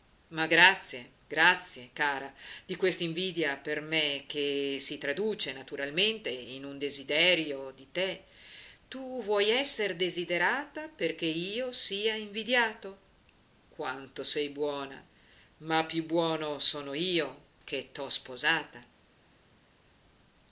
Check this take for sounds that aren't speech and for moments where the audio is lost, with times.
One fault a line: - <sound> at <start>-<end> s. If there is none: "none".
none